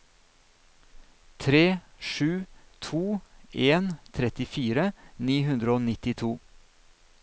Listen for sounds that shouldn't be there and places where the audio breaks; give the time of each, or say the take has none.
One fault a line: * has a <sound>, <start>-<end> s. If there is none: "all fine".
all fine